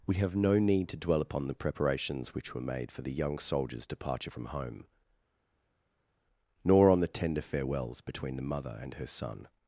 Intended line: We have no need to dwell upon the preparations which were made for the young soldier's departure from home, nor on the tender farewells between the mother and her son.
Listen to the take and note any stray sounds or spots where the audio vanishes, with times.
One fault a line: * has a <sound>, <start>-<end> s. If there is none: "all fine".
all fine